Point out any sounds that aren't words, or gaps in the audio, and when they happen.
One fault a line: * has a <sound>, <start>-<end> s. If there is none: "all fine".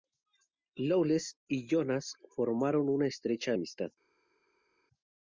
all fine